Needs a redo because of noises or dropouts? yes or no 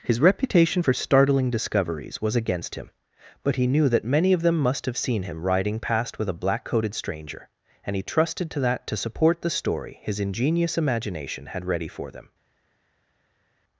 no